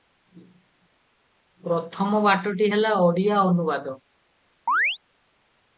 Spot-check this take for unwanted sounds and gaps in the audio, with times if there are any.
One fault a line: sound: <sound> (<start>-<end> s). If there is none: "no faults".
sound: chirp (4.7-5.0 s)